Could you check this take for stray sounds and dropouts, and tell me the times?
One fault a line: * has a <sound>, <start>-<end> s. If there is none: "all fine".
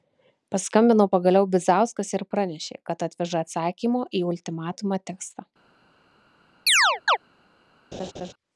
* has a chirp, 6.7-7.2 s
* has a laugh, 7.9-8.3 s